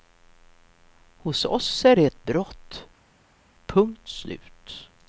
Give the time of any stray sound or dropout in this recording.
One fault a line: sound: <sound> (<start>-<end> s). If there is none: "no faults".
no faults